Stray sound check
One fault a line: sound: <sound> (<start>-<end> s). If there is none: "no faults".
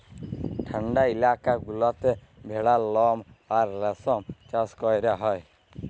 no faults